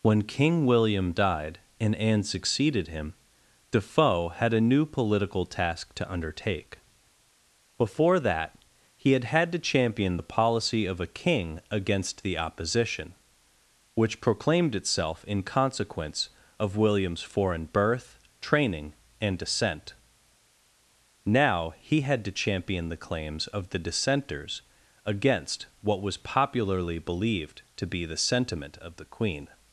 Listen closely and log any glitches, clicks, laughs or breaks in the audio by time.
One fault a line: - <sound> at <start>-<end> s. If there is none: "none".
none